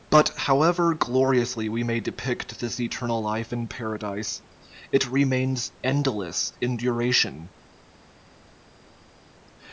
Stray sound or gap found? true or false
false